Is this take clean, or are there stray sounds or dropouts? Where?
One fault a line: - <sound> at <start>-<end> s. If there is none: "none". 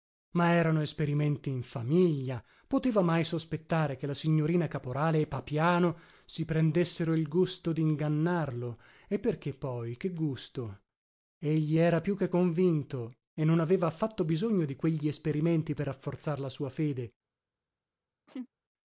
- laugh at 18.3-18.5 s